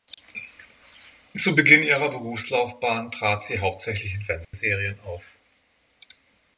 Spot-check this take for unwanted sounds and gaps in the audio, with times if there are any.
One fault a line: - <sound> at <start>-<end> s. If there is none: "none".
- dropout at 4.4-4.5 s